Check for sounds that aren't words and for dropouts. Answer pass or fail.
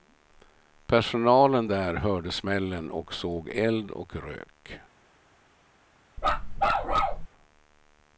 fail